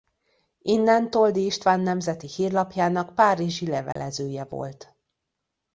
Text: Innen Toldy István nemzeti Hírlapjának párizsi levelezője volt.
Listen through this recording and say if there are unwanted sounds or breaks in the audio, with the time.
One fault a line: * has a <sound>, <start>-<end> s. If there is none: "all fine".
* has a dropout, 3.9-4.0 s